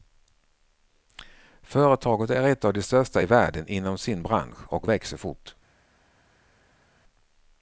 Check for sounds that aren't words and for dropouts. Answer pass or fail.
pass